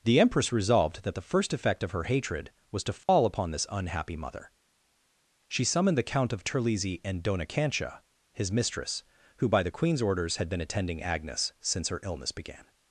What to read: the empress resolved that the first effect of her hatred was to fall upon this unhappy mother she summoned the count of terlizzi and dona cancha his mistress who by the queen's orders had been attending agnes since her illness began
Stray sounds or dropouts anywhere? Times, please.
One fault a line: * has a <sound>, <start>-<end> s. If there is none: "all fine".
* has a dropout, 3.0-3.1 s